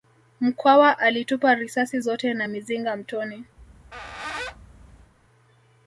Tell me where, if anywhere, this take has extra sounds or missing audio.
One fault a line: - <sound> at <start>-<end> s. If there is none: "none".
- squeak at 3.6-5.1 s